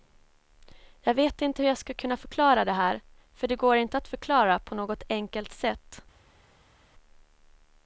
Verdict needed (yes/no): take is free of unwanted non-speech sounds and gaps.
yes